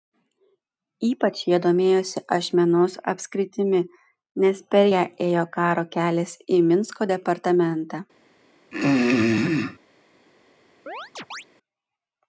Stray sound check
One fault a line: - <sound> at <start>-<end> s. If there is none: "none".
- throat clearing at 8.7-9.8 s
- chirp at 10.9-11.4 s